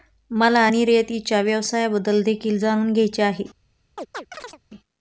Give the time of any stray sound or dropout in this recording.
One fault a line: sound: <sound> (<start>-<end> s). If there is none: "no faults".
sound: chirp (4.0-4.6 s)